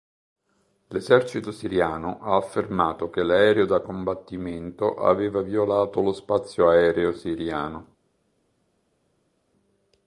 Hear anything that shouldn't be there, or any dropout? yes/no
no